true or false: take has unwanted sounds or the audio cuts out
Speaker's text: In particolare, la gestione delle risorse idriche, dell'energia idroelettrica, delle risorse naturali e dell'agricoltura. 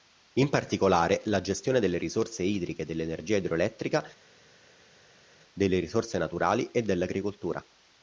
false